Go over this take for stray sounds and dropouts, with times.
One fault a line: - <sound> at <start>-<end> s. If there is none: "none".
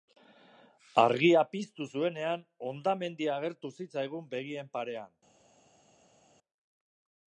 none